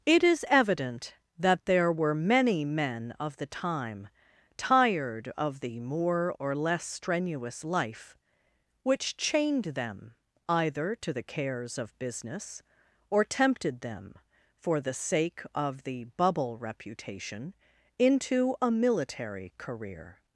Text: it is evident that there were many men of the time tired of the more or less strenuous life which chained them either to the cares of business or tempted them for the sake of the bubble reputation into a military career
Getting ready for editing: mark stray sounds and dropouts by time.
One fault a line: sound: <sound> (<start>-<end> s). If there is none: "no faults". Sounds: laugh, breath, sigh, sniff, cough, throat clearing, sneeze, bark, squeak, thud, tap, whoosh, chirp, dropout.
no faults